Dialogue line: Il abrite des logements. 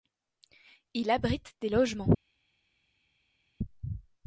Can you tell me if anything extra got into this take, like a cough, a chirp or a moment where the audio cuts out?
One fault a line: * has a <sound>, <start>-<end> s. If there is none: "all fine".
all fine